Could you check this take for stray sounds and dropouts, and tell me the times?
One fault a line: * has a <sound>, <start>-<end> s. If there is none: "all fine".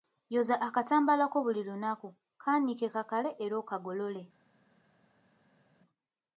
all fine